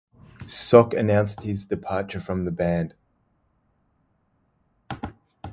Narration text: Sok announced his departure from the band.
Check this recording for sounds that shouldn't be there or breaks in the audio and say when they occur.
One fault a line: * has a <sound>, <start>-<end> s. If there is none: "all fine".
all fine